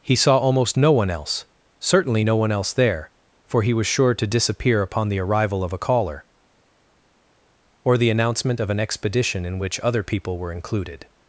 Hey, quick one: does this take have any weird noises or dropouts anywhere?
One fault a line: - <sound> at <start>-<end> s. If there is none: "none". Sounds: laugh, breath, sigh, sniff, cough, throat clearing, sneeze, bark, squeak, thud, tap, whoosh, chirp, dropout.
none